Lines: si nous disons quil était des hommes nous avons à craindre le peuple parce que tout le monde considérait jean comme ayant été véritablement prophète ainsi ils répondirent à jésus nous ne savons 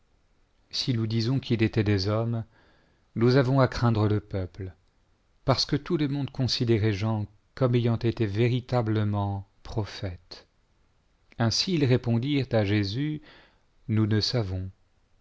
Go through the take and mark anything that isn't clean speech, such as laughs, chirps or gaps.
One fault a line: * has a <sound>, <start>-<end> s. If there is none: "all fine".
all fine